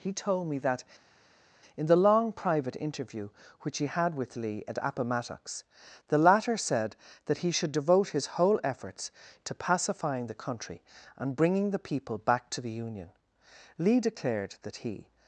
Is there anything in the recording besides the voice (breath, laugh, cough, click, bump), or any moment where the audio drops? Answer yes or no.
no